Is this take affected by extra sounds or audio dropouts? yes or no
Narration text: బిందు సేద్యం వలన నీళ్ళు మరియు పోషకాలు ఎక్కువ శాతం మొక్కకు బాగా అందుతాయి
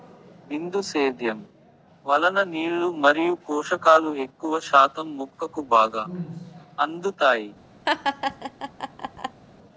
yes